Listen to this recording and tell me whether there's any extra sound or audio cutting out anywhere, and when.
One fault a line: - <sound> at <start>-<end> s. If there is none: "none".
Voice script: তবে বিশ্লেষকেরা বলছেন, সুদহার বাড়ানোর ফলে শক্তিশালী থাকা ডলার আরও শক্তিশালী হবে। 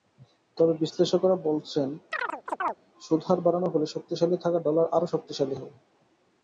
- chirp at 2.1-2.8 s